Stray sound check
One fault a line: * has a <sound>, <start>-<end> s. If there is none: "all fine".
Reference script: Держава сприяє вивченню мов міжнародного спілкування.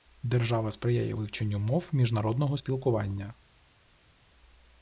all fine